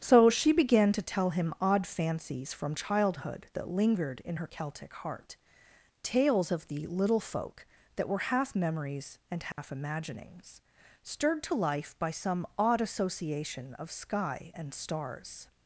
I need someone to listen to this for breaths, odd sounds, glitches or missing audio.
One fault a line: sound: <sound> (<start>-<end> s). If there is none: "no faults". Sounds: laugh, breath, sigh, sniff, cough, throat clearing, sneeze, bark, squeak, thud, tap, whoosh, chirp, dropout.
sound: dropout (9.5-9.6 s)